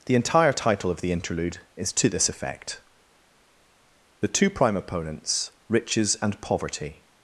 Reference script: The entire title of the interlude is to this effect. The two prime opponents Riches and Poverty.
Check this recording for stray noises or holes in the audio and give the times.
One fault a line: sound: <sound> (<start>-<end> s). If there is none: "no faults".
no faults